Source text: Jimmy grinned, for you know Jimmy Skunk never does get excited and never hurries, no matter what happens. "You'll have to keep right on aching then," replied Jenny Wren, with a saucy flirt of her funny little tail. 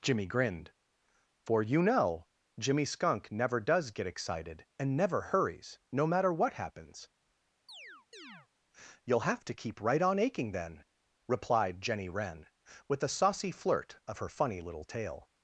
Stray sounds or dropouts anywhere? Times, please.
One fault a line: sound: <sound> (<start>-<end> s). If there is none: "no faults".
sound: chirp (7.7-8.5 s)